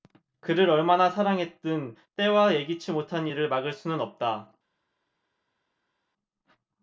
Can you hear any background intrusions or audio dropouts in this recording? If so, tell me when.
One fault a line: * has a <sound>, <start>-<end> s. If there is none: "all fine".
all fine